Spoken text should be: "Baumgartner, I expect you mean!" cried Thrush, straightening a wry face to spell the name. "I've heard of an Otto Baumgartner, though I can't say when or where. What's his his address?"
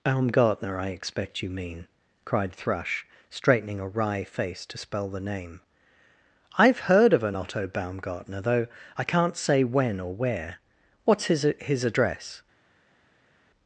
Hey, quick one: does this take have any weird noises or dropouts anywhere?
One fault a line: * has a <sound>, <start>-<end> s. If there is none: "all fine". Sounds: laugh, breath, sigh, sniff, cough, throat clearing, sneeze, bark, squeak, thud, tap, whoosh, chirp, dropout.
all fine